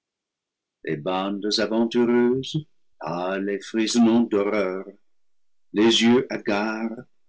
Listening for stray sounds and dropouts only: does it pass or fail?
pass